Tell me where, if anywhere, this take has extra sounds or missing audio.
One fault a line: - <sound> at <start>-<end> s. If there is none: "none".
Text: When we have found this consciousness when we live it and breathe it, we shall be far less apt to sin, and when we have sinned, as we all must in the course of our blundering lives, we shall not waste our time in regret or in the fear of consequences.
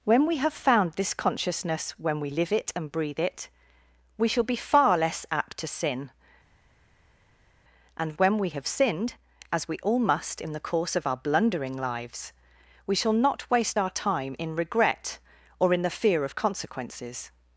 none